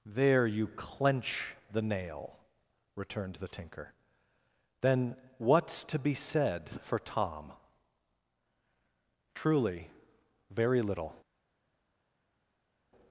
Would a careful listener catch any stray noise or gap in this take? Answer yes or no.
no